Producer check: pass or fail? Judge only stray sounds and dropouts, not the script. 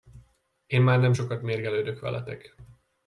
pass